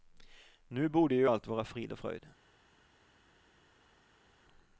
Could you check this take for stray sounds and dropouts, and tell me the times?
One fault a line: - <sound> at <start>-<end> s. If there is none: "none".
none